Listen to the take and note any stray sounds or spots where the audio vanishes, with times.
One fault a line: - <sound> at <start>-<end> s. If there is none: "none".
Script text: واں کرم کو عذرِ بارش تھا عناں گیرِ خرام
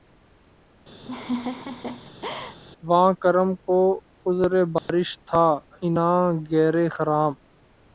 - laugh at 1.0-2.6 s
- dropout at 4.8-4.9 s